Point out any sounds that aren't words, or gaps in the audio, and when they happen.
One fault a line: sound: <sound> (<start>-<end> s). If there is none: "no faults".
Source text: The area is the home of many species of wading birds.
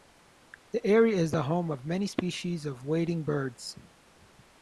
no faults